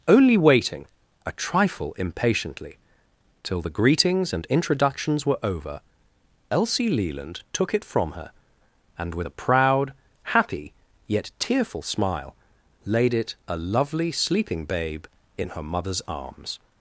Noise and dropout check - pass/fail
pass